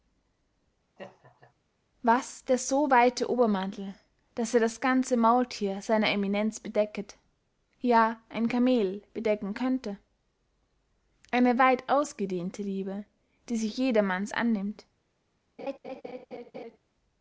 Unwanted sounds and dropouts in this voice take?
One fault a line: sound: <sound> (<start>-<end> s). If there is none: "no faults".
sound: laugh (1.0-1.5 s)
sound: laugh (15.6-16.8 s)